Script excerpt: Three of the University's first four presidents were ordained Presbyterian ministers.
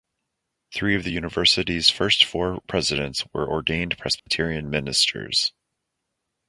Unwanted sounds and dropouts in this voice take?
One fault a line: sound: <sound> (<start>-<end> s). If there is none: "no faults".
sound: dropout (4.2-4.3 s)